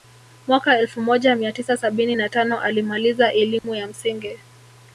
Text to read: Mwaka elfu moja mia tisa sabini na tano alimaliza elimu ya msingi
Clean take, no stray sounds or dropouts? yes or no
no